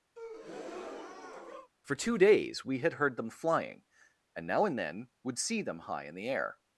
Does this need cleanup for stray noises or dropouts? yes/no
yes